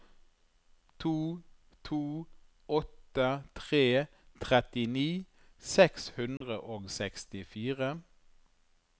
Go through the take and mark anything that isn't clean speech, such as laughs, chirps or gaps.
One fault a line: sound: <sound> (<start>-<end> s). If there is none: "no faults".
sound: dropout (6.4-6.4 s)